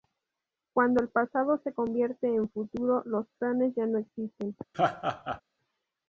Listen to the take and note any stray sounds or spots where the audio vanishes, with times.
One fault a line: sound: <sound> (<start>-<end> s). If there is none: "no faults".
sound: laugh (4.7-5.4 s)